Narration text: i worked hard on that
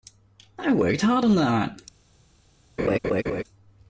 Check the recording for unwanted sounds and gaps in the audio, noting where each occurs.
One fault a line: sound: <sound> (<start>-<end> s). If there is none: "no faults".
sound: laugh (2.8-3.4 s)